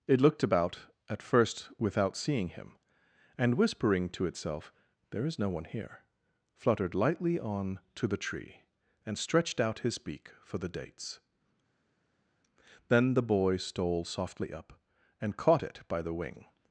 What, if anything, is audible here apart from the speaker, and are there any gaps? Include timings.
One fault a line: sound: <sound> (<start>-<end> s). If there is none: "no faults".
no faults